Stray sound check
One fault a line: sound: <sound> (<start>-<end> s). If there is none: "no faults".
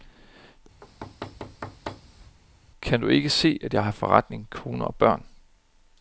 sound: thud (0.8-2.4 s)